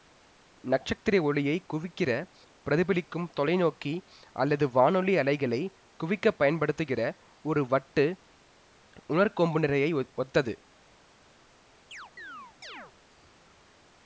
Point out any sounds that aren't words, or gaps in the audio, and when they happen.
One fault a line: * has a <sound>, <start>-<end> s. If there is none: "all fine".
* has a chirp, 11.9-12.9 s